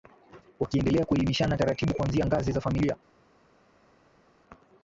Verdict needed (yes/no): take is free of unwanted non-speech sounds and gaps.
yes